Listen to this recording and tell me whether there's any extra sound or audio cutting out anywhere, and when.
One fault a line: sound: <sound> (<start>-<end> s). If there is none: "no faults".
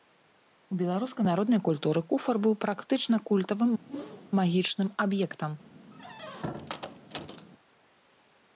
sound: whoosh (3.9-4.3 s)
sound: squeak (5.9-7.5 s)